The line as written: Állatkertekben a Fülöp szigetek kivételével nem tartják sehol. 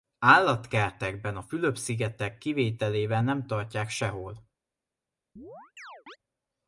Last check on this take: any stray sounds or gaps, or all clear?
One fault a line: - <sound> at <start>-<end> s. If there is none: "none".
- chirp at 5.4-6.2 s